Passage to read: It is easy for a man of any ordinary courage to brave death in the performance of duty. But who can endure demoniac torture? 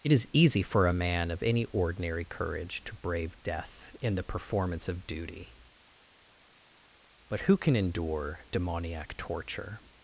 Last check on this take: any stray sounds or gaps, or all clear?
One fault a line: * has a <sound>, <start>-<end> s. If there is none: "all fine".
all fine